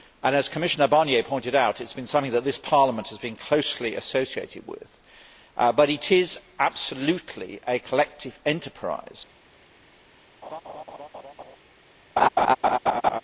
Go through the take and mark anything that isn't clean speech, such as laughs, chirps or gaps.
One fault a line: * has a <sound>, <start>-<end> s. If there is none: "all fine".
* has a laugh, 10.4-11.6 s
* has a laugh, 12.2-13.2 s